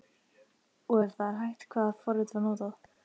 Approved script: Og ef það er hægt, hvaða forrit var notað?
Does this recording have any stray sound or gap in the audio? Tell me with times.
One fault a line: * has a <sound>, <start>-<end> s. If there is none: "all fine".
all fine